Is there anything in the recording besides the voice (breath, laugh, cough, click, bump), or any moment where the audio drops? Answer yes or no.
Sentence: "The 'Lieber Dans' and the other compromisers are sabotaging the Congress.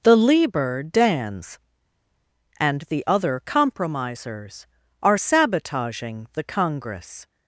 no